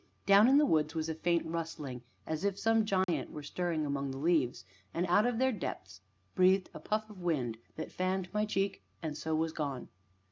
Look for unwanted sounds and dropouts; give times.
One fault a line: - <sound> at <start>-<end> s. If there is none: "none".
- dropout at 3.0-3.1 s